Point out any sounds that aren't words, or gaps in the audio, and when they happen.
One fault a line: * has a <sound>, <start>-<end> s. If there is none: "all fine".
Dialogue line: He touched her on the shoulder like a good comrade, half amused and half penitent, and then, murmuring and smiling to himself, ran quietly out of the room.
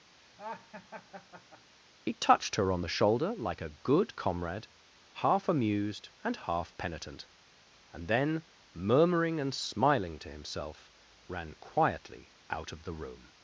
* has a laugh, 0.2-1.7 s